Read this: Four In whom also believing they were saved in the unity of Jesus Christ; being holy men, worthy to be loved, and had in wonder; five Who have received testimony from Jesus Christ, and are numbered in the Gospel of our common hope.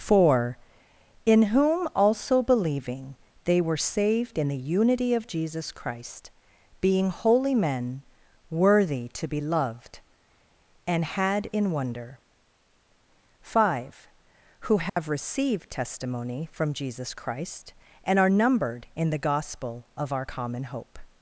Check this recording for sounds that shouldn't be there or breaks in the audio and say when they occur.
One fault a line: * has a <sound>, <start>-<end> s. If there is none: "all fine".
* has a dropout, 14.9-15.0 s